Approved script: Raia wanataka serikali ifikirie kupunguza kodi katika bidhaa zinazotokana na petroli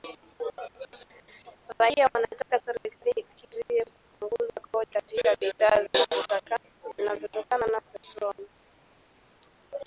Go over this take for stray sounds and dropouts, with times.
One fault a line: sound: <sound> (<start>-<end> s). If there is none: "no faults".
no faults